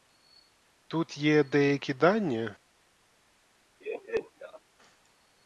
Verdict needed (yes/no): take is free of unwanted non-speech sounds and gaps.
no